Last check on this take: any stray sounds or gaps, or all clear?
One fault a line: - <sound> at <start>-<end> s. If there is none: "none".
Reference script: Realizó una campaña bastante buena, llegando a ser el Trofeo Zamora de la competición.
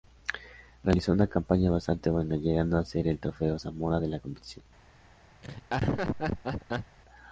- laugh at 5.4-7.0 s